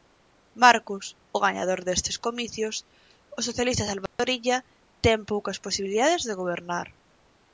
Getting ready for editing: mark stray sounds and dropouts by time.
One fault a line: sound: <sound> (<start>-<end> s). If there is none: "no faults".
sound: dropout (4.1-4.2 s)